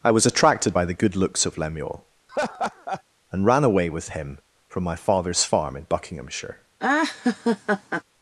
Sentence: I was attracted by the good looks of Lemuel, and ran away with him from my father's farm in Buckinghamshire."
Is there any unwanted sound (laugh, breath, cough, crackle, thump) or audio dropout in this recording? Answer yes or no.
yes